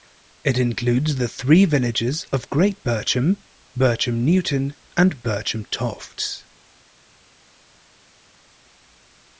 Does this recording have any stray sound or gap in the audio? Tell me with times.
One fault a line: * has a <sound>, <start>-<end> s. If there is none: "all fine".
all fine